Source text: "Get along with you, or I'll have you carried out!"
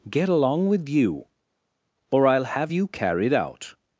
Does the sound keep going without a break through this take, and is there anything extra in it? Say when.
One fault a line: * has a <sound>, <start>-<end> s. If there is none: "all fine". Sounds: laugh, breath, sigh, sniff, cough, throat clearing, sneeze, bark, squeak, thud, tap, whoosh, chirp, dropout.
all fine